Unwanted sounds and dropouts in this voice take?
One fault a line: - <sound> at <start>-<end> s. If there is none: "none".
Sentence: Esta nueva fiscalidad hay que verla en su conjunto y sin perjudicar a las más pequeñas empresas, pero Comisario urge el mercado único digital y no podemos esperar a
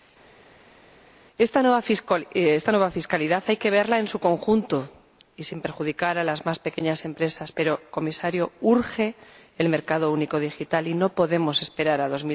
none